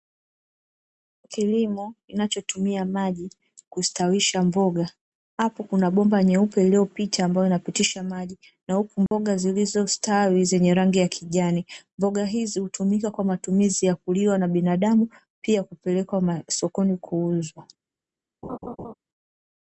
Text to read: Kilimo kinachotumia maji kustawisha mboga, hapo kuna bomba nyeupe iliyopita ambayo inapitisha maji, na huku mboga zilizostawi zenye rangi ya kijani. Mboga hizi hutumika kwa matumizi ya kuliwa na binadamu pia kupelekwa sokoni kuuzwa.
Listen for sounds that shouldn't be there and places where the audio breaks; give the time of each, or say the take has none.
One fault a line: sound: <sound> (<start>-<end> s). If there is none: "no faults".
sound: dropout (9.1-9.1 s)
sound: laugh (18.4-18.9 s)